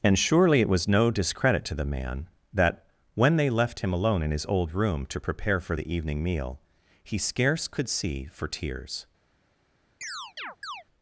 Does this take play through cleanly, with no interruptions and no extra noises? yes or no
no